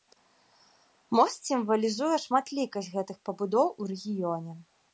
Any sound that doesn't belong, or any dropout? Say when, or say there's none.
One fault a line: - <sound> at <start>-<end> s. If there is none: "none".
none